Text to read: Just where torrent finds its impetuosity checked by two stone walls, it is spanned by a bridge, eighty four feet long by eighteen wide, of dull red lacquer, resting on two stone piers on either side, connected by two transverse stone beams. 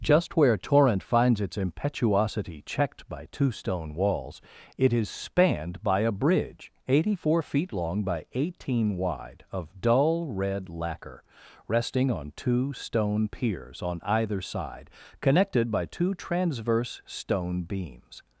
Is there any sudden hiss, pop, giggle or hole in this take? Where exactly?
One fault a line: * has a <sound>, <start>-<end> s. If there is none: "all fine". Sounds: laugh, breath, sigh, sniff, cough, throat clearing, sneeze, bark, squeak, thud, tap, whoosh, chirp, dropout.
all fine